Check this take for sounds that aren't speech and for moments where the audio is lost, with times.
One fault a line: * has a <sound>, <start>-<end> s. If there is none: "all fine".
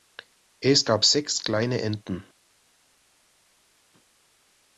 all fine